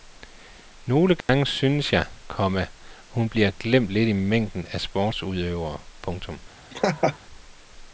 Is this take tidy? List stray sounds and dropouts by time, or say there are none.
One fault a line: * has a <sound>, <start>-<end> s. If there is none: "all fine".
* has a dropout, 1.2-1.3 s
* has a laugh, 6.7-7.2 s